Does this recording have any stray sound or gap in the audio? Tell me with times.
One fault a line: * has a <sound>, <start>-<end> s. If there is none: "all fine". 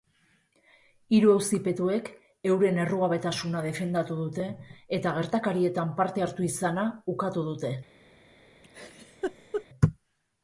* has a laugh, 8.6-9.7 s